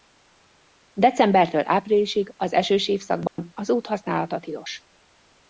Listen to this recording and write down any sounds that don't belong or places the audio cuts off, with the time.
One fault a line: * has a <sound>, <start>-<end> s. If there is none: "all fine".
* has a dropout, 3.3-3.4 s